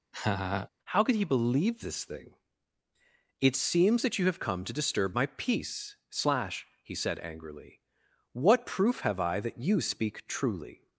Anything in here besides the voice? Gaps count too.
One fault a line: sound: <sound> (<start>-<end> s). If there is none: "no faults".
sound: laugh (0.1-0.7 s)